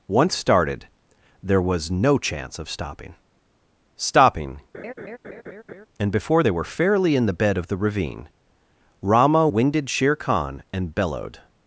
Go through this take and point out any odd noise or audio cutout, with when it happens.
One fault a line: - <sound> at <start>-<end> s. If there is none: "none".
- laugh at 4.7-5.9 s